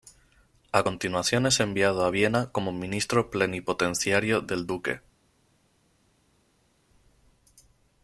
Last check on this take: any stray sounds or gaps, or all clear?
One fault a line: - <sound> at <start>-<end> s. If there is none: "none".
none